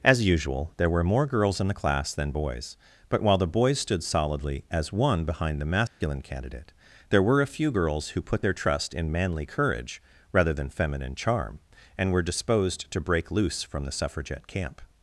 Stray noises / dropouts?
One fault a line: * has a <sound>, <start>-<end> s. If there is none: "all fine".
* has a dropout, 5.9-6.0 s